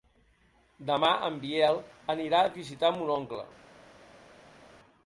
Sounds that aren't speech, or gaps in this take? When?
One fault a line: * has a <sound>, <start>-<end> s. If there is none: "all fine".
all fine